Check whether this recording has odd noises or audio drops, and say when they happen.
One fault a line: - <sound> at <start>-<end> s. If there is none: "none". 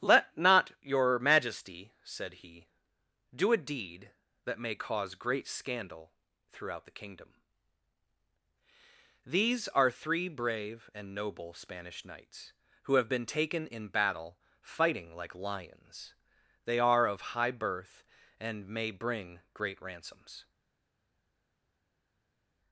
none